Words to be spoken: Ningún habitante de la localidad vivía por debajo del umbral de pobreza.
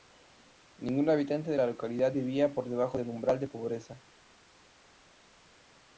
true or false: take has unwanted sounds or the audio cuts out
false